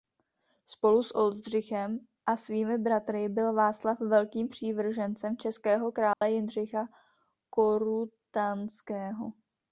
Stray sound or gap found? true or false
true